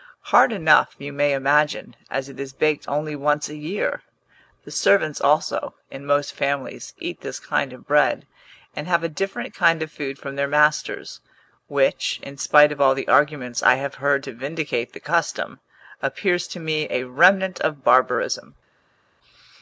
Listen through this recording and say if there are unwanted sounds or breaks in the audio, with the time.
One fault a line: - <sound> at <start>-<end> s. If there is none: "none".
none